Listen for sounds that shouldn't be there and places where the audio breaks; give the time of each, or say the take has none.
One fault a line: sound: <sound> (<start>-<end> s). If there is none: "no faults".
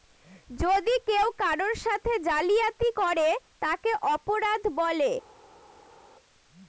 no faults